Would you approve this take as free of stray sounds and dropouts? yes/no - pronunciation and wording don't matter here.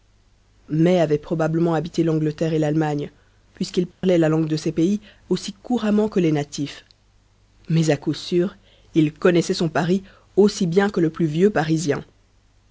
no